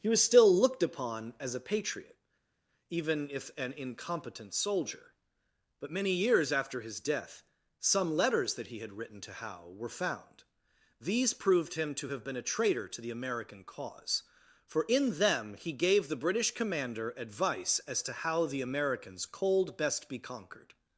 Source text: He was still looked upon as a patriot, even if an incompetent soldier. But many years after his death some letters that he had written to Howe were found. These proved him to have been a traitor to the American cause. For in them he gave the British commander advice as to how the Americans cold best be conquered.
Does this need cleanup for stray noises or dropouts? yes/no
no